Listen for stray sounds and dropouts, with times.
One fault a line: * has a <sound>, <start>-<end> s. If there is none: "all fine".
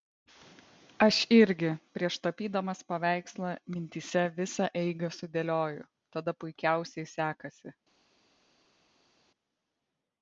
all fine